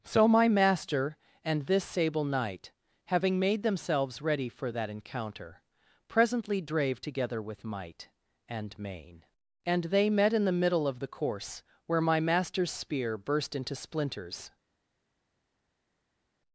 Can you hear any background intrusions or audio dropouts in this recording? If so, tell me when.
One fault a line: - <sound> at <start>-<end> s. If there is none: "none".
none